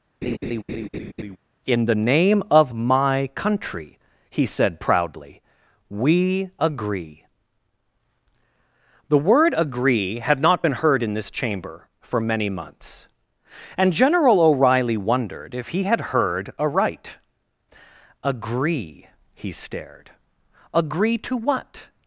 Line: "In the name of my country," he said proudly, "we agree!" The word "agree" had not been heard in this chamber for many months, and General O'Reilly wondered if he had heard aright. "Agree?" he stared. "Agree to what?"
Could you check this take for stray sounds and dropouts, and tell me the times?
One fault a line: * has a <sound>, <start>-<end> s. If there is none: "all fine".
* has a laugh, 0.2-1.4 s